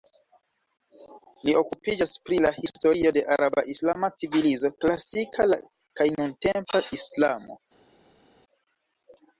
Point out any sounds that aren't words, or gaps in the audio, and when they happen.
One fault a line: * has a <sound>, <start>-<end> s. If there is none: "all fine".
all fine